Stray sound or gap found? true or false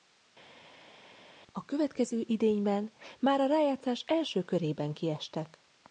false